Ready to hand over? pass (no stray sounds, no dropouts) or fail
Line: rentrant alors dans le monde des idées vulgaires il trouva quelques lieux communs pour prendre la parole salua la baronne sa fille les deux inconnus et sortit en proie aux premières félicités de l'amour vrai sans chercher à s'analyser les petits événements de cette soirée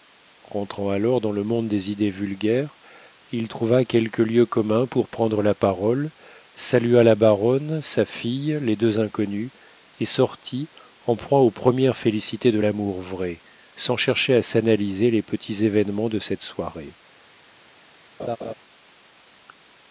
fail